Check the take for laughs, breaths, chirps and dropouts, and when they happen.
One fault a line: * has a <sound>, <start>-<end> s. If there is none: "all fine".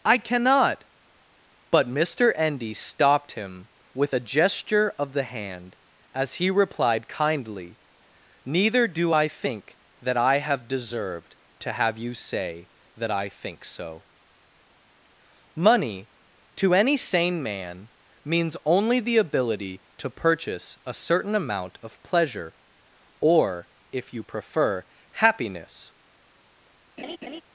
* has a laugh, 27.0-27.4 s